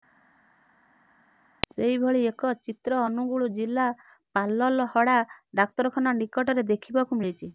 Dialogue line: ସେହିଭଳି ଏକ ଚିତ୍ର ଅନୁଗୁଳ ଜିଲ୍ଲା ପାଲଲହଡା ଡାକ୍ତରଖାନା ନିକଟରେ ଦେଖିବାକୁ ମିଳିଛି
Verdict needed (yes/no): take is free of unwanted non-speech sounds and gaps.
yes